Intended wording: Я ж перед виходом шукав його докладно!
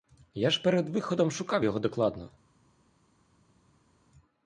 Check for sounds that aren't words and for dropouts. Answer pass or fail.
pass